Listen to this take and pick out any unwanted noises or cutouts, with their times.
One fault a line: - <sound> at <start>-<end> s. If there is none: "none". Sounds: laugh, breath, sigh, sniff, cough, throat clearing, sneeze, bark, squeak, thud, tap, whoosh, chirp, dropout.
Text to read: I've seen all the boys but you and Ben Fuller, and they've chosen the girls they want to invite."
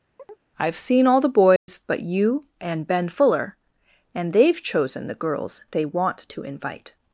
- chirp at 0.2-0.4 s
- dropout at 1.6-1.7 s